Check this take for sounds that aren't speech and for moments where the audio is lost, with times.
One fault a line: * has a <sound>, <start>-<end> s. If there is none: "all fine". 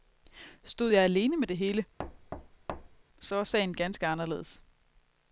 * has a thud, 2.0-3.0 s